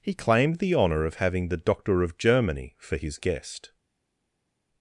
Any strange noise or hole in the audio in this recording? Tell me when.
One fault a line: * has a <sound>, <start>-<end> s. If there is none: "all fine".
all fine